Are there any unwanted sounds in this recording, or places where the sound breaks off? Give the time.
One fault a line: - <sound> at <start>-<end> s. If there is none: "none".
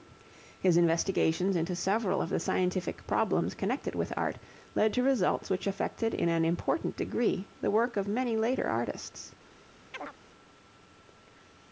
- chirp at 9.9-10.1 s